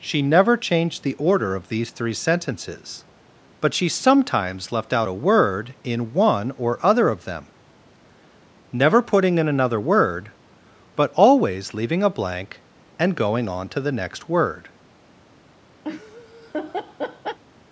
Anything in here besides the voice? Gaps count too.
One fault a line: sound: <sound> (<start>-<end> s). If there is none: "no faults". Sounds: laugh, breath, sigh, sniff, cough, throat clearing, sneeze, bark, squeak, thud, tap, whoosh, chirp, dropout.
sound: laugh (15.8-17.4 s)